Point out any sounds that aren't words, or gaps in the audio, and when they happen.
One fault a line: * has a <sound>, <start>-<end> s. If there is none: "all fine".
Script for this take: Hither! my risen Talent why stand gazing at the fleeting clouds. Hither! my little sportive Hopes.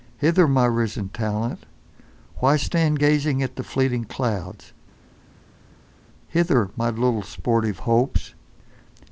all fine